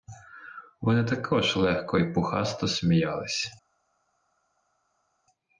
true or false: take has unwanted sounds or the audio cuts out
false